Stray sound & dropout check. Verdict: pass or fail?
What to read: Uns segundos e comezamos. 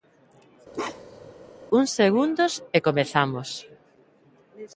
fail